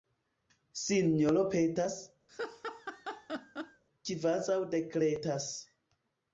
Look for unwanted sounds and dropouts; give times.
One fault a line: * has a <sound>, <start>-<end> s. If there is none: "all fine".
* has a laugh, 2.3-3.8 s